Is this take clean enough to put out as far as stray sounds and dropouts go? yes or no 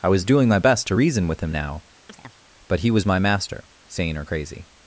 no